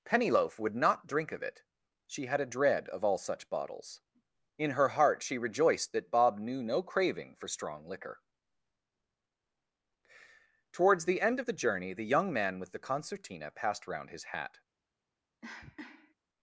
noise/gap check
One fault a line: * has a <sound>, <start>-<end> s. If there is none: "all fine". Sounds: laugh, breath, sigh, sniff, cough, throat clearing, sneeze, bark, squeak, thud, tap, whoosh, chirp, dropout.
* has a cough, 15.4-16.1 s